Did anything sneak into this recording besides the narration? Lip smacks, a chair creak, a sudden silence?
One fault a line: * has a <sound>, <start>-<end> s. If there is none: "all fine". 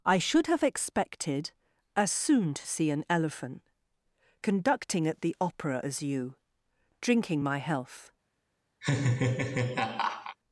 * has a laugh, 8.8-10.4 s